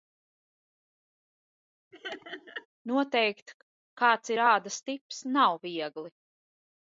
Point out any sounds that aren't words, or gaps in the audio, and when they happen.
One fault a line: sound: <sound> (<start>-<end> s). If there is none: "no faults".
sound: laugh (1.9-2.7 s)